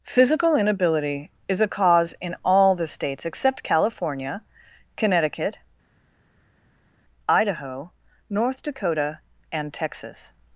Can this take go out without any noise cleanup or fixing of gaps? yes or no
yes